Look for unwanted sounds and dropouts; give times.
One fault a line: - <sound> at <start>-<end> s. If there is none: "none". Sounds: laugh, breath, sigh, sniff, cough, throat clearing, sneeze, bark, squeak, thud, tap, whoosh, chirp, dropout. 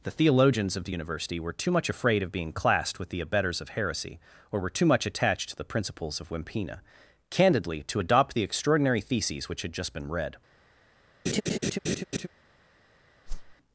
- laugh at 11.3-12.3 s
- whoosh at 13.3-13.6 s